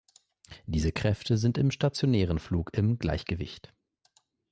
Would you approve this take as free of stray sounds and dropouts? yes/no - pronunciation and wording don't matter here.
yes